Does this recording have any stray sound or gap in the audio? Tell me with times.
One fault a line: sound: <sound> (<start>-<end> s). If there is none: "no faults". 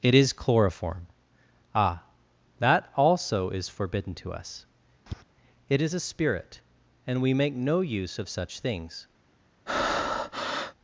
sound: tap (5.1-5.2 s)
sound: breath (9.7-10.7 s)